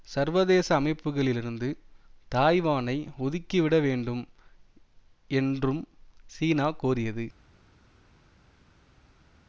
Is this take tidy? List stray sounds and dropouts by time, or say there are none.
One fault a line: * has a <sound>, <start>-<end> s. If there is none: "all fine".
all fine